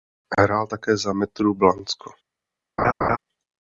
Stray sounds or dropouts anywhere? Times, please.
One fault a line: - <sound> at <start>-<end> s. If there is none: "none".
- laugh at 2.8-3.2 s